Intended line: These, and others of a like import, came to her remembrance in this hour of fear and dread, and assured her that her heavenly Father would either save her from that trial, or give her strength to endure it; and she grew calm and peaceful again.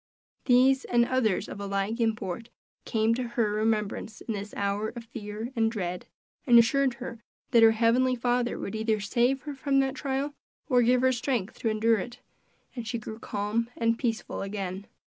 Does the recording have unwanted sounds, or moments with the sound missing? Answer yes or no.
no